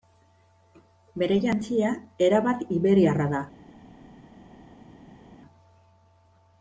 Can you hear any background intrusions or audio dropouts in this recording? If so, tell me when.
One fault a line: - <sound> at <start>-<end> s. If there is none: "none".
none